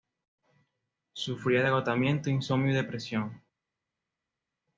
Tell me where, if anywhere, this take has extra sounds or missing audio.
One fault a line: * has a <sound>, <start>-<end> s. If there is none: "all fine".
all fine